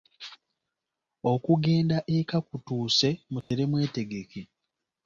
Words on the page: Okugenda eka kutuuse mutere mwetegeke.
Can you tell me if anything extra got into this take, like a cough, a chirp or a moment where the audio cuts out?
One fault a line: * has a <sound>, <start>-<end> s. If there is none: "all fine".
* has a dropout, 3.4-3.5 s